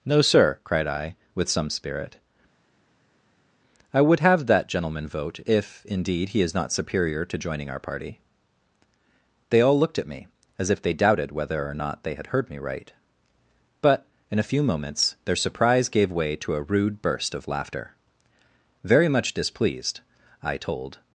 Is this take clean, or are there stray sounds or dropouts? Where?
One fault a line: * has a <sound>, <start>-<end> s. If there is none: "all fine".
all fine